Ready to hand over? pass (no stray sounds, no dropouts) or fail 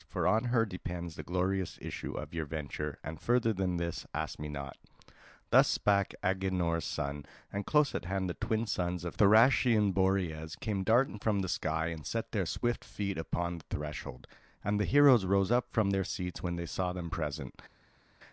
pass